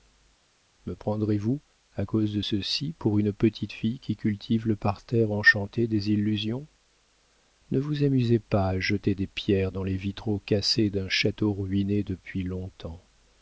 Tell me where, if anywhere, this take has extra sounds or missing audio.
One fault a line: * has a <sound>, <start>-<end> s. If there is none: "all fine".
all fine